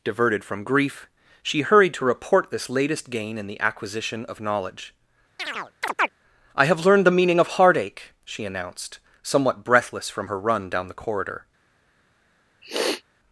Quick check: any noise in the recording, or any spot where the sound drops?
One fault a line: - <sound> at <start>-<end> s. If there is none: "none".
- chirp at 5.4-6.1 s
- sniff at 12.6-13.0 s